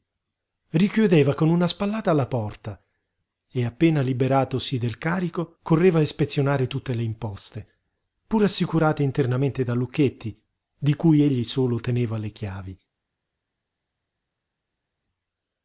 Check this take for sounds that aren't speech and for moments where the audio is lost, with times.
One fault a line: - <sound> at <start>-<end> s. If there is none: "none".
none